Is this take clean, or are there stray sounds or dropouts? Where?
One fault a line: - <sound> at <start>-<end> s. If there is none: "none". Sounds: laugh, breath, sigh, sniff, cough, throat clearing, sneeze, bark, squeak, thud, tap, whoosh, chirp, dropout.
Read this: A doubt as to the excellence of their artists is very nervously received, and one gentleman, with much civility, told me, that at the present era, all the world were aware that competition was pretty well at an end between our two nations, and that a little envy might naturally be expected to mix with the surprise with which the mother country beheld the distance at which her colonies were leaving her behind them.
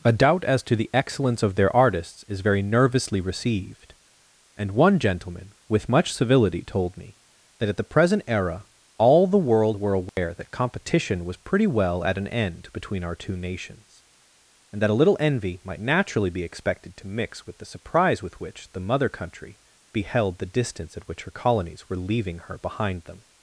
- dropout at 10.1-10.2 s